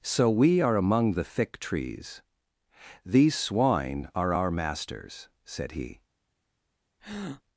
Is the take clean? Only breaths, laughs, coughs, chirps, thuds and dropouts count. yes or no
no